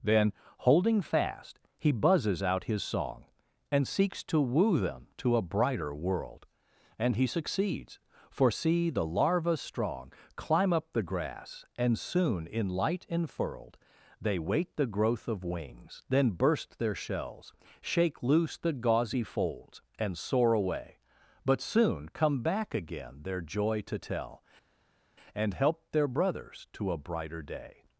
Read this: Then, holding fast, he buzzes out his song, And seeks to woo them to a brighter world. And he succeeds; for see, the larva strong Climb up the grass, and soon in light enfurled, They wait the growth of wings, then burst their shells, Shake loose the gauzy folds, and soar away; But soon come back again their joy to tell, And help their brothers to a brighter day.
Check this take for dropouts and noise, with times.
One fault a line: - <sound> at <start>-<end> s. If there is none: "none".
none